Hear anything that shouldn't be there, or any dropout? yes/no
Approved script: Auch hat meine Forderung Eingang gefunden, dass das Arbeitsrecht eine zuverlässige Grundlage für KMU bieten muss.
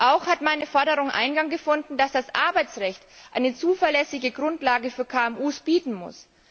no